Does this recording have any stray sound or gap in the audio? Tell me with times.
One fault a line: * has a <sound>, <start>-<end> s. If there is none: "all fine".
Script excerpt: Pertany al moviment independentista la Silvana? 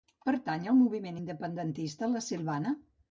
all fine